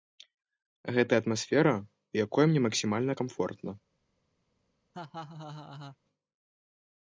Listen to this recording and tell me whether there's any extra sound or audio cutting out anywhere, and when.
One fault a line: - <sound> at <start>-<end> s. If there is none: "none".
- laugh at 4.9-6.0 s